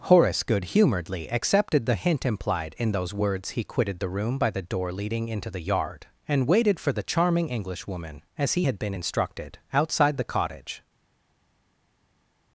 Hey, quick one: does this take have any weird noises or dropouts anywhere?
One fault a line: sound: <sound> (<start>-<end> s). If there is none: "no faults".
no faults